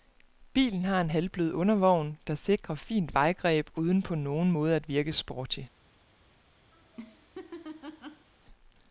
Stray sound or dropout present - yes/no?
yes